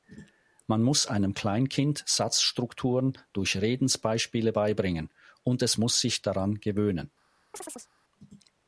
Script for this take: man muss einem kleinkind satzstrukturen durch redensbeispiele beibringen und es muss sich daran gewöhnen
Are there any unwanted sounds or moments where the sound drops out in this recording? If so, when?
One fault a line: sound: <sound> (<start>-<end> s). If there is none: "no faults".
sound: chirp (7.5-7.9 s)